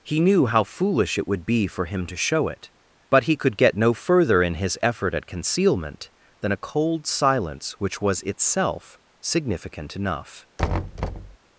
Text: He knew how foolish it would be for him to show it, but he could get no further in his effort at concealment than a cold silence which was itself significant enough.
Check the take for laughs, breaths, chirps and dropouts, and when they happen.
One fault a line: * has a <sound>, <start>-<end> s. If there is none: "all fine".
* has a thud, 10.6-11.4 s